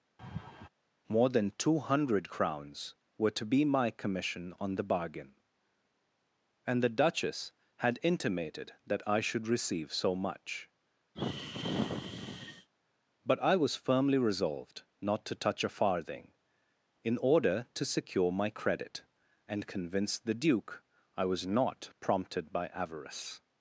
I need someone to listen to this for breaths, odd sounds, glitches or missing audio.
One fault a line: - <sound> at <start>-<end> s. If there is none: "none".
- laugh at 0.2-0.7 s
- sigh at 11.1-12.7 s